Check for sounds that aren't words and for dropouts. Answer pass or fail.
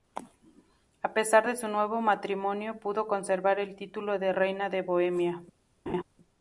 fail